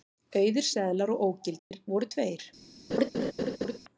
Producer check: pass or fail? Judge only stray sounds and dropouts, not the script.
fail